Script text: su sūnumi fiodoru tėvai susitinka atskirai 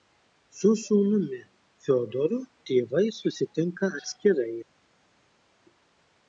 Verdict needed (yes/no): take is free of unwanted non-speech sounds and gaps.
yes